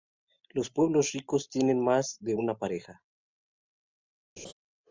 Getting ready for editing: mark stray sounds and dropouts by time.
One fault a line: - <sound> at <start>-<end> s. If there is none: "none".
- laugh at 4.4-4.5 s